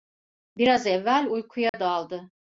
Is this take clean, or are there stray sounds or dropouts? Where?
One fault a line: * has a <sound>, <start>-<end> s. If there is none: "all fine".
* has a dropout, 1.7-1.7 s